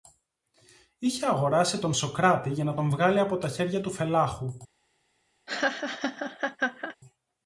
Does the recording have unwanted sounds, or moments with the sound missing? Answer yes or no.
yes